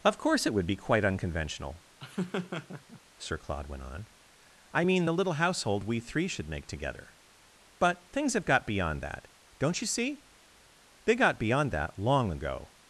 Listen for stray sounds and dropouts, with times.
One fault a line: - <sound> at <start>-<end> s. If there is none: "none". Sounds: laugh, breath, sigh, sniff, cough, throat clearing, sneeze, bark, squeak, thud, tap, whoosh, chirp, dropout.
- laugh at 2.0-3.0 s